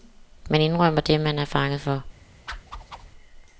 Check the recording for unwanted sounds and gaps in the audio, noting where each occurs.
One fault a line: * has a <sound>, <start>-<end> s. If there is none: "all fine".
* has a whoosh, 2.5-3.1 s